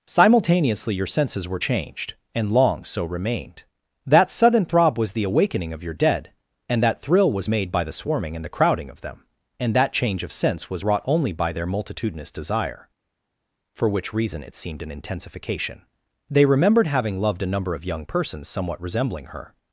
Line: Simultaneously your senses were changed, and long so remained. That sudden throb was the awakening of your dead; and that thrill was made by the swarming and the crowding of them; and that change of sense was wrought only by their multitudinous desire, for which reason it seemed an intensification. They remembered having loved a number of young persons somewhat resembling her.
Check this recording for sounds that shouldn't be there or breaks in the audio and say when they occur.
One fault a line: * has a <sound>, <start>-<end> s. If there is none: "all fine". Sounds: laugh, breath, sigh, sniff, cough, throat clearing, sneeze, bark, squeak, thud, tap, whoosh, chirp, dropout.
all fine